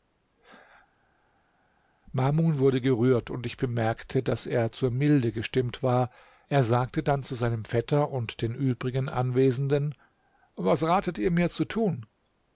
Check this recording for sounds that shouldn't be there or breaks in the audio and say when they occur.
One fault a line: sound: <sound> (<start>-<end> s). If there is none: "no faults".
no faults